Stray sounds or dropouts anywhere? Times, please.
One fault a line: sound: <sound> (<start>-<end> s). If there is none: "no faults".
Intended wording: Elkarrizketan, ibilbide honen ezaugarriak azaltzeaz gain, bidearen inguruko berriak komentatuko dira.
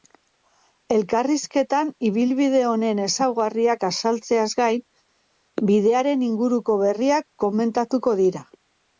no faults